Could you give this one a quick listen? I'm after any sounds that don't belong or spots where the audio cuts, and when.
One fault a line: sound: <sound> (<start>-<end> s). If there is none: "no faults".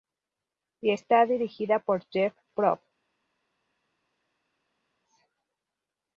no faults